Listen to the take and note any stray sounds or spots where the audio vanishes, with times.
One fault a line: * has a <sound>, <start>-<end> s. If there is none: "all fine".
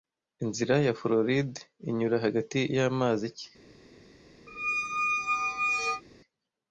* has a squeak, 4.5-6.0 s